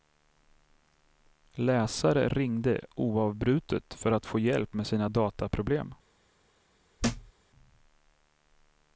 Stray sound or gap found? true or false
true